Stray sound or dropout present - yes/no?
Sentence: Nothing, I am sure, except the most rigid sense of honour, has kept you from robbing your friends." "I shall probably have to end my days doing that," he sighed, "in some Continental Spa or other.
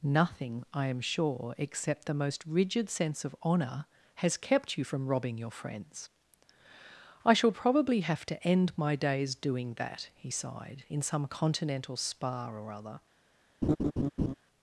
yes